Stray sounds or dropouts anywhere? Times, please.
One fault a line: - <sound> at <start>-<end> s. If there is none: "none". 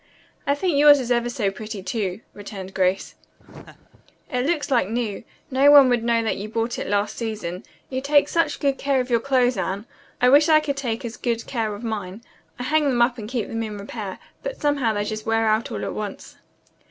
- laugh at 3.4-4.0 s